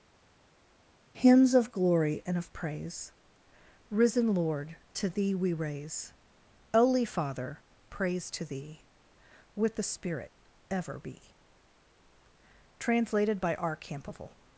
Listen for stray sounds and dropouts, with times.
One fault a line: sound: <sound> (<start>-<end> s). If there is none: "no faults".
no faults